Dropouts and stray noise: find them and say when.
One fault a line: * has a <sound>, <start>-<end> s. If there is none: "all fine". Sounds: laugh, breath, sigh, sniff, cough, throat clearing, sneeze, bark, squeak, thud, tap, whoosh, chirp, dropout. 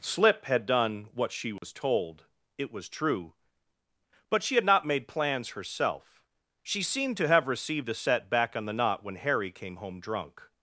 * has a dropout, 1.6-1.6 s